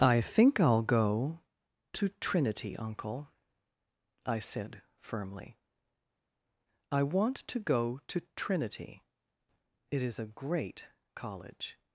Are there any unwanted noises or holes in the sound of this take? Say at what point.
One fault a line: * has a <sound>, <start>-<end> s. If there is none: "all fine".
all fine